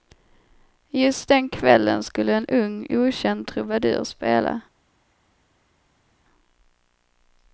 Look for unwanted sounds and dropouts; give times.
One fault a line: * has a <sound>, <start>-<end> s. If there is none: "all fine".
all fine